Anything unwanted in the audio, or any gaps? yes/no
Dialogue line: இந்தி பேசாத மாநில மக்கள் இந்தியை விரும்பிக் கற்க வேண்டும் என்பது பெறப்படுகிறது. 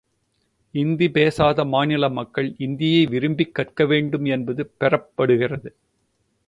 no